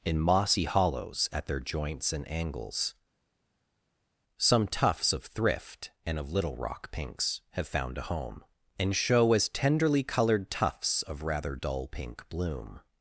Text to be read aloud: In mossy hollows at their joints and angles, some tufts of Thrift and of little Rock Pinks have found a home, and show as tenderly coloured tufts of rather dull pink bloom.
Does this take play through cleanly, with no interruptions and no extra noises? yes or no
yes